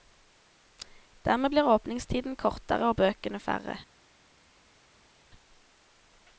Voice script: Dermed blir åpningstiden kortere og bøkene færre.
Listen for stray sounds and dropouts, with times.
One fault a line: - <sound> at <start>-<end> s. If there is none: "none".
none